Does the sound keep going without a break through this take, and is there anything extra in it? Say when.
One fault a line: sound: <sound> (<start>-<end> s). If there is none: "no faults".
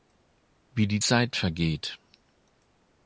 no faults